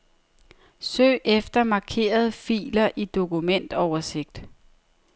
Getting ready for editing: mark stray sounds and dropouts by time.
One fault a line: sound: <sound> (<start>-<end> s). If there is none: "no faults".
no faults